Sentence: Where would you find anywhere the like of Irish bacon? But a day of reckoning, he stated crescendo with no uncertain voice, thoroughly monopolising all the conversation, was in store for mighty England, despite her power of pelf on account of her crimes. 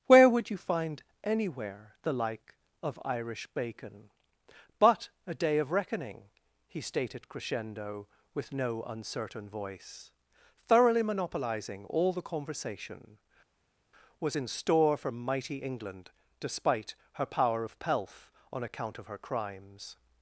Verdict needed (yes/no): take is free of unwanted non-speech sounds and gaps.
yes